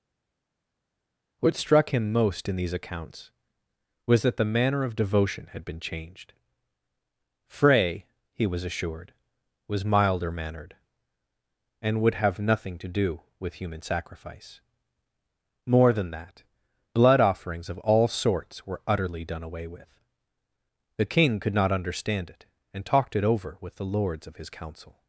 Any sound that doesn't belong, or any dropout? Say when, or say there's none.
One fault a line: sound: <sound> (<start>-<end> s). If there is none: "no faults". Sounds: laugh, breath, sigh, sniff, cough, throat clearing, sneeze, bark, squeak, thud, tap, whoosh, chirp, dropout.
no faults